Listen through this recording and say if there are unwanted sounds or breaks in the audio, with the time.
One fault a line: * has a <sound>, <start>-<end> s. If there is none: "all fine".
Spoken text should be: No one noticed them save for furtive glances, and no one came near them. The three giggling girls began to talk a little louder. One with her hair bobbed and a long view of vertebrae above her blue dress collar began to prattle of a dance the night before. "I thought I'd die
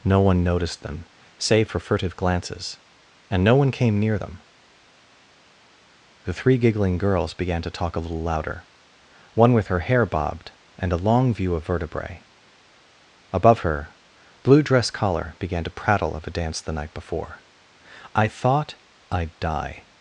all fine